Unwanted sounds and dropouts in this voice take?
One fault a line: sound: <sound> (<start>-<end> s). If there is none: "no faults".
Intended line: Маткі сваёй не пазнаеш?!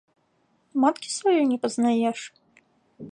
no faults